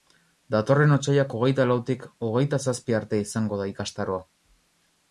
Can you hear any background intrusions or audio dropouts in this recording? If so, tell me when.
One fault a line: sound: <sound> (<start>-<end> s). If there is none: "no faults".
no faults